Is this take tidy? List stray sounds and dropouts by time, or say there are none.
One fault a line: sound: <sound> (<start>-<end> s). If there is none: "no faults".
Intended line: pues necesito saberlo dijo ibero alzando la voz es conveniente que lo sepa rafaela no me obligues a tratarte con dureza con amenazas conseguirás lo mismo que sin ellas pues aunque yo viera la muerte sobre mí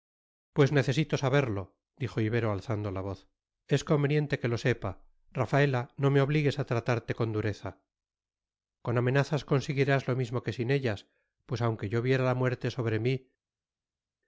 no faults